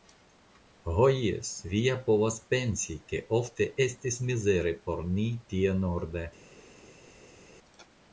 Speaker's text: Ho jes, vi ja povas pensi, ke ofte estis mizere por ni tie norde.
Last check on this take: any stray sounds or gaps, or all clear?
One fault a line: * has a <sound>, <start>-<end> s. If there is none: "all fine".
all fine